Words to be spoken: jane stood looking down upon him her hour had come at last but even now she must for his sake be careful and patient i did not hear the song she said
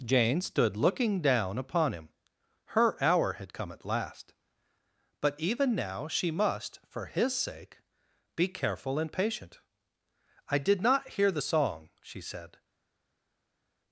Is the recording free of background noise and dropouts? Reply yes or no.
yes